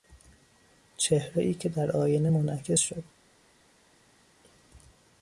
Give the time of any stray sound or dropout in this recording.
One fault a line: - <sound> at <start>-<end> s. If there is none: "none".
none